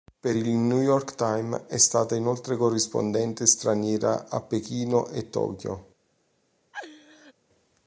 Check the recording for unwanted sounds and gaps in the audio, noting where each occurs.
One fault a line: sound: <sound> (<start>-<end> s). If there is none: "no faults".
sound: laugh (6.7-7.3 s)